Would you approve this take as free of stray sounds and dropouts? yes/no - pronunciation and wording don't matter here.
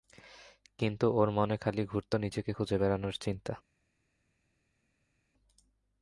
yes